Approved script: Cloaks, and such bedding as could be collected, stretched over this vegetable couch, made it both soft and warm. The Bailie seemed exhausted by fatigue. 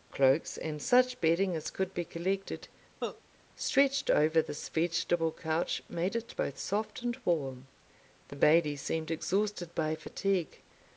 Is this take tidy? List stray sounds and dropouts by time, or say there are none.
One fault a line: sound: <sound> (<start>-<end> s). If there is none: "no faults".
sound: cough (3.0-3.2 s)